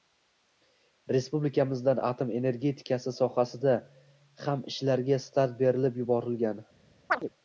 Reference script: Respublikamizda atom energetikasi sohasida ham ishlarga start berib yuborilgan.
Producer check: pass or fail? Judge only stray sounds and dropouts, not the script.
fail